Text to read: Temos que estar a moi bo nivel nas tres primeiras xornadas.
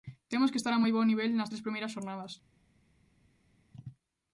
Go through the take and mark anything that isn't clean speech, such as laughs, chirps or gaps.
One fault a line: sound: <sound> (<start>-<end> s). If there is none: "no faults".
no faults